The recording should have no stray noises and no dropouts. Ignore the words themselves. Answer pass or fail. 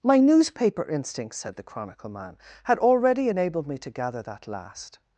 pass